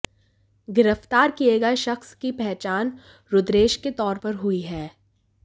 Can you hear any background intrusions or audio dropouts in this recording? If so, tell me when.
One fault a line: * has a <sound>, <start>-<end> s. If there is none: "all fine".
all fine